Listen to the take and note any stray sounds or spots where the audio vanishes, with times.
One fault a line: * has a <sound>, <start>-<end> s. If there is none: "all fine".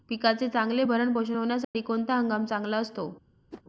* has a dropout, 1.6-1.7 s
* has a whoosh, 3.5-3.6 s